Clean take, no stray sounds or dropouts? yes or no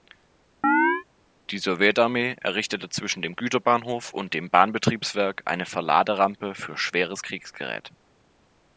no